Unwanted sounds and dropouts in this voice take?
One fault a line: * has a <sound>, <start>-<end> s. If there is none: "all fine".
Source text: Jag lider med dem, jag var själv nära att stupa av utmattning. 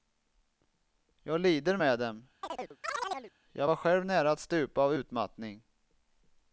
* has a chirp, 2.4-3.3 s